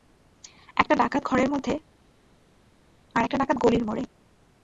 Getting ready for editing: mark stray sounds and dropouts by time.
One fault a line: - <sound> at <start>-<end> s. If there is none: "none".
none